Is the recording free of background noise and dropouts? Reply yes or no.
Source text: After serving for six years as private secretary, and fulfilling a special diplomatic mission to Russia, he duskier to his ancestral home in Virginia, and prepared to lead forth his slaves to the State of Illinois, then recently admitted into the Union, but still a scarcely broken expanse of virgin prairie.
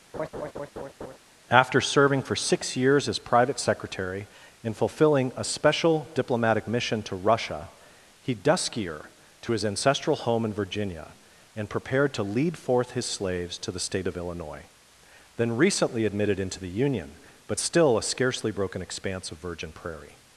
no